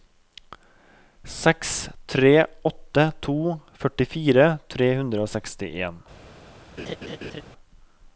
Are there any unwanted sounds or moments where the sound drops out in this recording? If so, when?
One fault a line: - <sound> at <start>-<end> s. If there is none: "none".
- laugh at 6.8-7.4 s